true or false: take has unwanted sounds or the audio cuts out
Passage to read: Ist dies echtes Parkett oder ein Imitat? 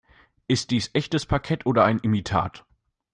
false